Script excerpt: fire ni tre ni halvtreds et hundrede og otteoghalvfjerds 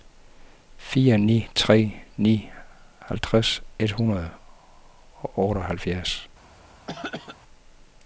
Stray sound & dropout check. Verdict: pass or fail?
fail